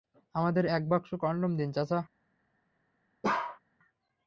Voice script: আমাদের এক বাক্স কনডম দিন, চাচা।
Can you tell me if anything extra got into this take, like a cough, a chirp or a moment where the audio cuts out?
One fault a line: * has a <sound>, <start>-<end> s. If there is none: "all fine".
* has a bark, 3.2-3.6 s